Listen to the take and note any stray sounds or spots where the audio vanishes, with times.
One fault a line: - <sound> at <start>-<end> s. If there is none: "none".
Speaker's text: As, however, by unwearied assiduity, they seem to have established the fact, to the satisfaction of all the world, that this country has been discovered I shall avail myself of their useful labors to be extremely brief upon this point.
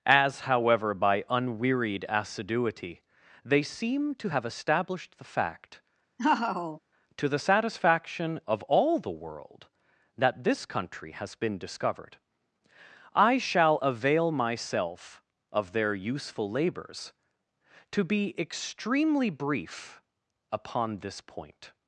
- laugh at 6.2-6.8 s